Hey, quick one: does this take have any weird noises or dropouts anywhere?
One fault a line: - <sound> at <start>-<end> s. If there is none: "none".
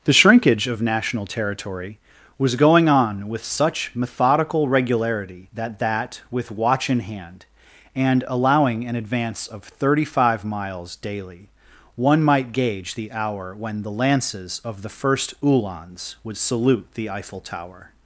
none